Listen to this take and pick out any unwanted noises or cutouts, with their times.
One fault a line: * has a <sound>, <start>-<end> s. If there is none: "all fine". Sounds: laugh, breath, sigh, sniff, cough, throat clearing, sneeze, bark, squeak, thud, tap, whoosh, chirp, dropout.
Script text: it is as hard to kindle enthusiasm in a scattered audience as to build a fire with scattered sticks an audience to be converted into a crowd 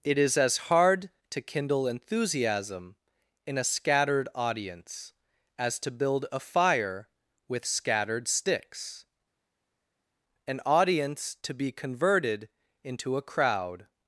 all fine